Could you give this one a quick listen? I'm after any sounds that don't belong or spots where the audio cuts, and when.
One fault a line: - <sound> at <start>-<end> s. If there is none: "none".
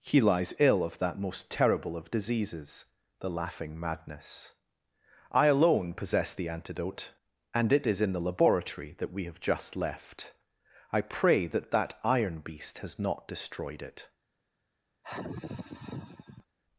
- sigh at 15.0-16.5 s